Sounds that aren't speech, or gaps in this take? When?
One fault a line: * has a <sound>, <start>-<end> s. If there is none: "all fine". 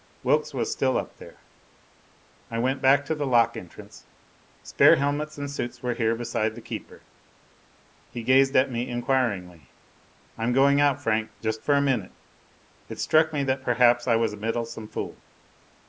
all fine